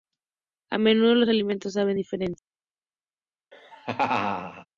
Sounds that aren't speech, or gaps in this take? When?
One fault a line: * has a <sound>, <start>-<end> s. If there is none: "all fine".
* has a laugh, 3.5-4.7 s